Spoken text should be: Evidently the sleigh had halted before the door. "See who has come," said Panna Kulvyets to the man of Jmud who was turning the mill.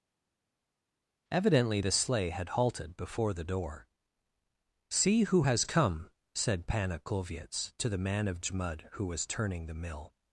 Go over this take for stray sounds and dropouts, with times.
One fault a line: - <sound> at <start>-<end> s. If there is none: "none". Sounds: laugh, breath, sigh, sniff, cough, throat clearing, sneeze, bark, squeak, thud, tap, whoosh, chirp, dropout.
none